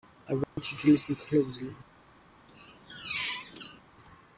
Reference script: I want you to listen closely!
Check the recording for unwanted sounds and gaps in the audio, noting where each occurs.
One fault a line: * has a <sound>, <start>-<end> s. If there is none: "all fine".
* has a dropout, 0.4-0.6 s
* has a squeak, 2.5-3.8 s